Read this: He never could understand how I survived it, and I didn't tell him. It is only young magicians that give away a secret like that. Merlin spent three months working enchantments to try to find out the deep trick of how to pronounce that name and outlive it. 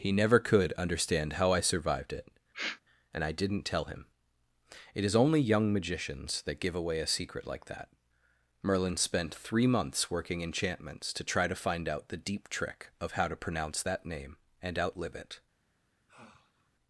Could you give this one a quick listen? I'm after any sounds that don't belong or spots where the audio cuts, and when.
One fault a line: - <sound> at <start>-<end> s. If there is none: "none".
- sniff at 2.5-2.8 s
- sigh at 16.1-16.7 s